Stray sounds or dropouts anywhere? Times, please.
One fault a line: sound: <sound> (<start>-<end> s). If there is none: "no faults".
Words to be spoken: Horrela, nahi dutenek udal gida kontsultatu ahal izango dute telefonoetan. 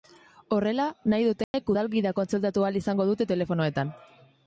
sound: dropout (1.4-1.5 s)